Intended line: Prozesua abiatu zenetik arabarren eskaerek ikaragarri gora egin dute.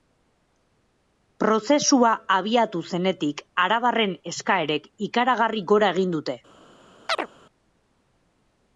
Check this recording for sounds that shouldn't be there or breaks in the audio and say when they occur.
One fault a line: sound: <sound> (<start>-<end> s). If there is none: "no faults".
sound: chirp (7.1-7.3 s)